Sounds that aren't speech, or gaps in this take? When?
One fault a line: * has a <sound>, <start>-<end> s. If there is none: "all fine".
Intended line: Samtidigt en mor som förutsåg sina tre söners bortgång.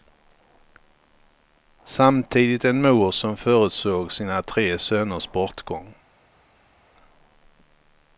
all fine